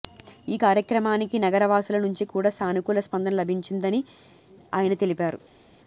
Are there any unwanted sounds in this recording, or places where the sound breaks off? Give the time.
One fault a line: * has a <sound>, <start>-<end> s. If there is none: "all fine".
all fine